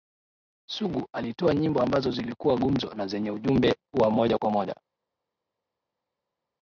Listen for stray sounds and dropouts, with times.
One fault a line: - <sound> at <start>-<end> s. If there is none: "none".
none